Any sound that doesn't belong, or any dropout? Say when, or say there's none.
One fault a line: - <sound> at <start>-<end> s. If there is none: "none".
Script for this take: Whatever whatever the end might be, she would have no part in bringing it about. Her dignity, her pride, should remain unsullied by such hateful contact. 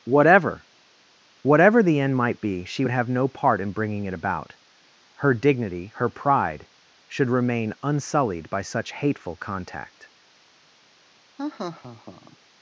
- laugh at 11.4-12.4 s